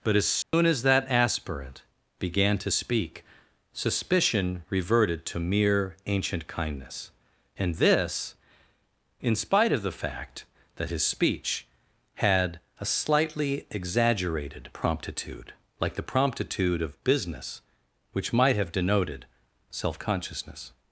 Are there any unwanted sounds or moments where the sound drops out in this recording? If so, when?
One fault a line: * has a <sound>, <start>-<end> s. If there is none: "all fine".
* has a dropout, 0.4-0.5 s